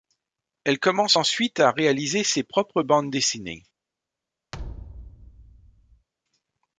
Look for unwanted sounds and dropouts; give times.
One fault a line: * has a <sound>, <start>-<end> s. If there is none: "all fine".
* has a thud, 4.5-6.1 s